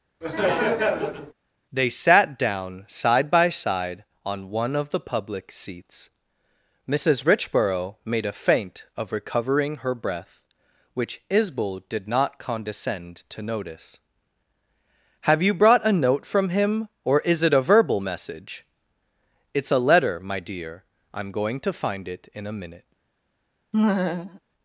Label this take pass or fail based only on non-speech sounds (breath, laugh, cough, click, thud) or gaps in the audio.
fail